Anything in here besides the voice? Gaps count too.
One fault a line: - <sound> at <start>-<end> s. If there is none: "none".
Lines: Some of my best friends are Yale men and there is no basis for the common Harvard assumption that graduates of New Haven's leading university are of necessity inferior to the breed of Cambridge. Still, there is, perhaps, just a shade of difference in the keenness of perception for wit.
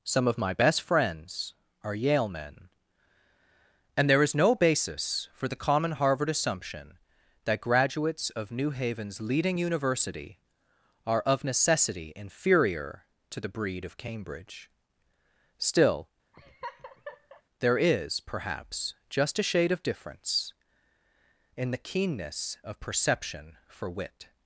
- laugh at 16.3-17.4 s